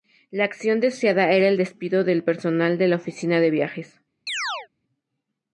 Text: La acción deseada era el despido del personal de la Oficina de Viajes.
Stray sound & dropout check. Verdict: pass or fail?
fail